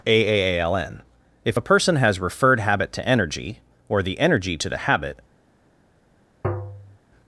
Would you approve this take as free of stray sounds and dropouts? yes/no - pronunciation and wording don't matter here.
no